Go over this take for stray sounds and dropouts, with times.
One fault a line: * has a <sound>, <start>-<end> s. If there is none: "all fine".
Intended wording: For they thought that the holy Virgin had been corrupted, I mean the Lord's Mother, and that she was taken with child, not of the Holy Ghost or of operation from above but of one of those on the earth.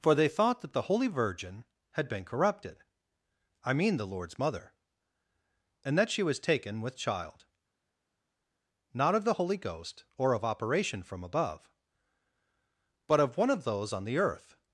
all fine